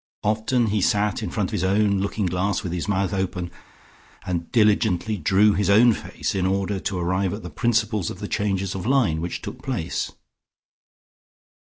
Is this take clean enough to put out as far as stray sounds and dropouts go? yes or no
yes